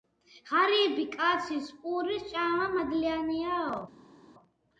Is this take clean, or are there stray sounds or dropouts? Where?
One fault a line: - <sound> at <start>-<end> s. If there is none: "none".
none